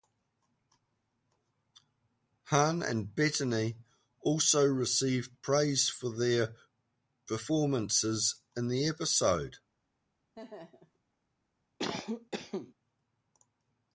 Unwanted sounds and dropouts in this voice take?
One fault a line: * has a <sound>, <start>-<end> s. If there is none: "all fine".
* has a laugh, 10.3-11.0 s
* has a cough, 11.8-12.7 s